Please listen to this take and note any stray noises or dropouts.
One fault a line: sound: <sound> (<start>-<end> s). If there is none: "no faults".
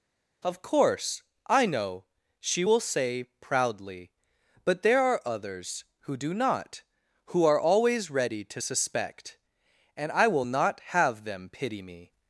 no faults